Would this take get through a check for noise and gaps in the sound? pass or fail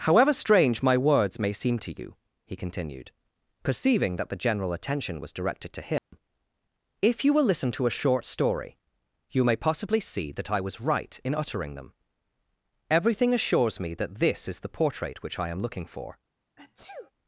fail